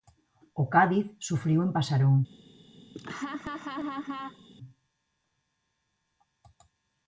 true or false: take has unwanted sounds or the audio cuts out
true